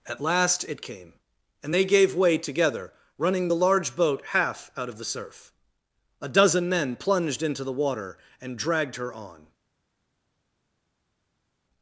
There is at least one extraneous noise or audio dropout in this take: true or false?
false